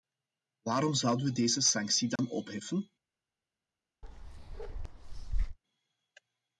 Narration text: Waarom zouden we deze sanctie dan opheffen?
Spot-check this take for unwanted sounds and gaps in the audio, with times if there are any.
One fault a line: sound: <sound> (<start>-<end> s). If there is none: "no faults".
sound: dropout (2.2-2.2 s)
sound: bark (4.0-5.6 s)